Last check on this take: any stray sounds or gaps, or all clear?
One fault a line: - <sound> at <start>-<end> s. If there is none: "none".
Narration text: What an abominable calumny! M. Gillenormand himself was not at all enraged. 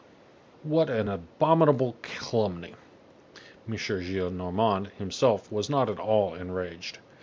none